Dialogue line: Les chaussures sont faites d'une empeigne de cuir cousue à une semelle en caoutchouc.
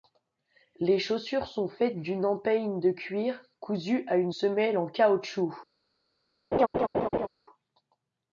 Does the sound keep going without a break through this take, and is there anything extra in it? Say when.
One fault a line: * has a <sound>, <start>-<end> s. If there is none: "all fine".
* has a laugh, 6.5-7.3 s